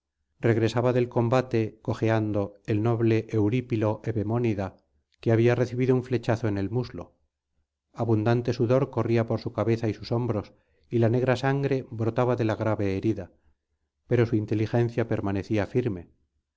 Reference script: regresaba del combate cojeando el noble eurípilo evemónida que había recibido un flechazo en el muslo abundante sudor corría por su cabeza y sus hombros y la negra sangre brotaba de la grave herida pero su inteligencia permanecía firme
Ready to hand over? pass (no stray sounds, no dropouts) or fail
pass